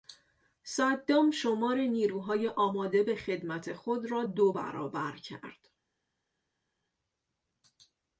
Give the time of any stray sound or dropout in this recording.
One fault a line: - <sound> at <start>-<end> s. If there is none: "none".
none